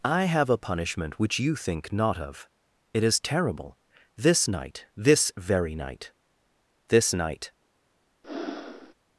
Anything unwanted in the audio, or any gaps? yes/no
yes